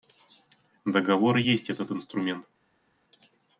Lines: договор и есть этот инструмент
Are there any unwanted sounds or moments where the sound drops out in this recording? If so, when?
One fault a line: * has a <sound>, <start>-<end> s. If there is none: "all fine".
all fine